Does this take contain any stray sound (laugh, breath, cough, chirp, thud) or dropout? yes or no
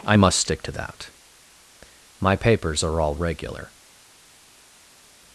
no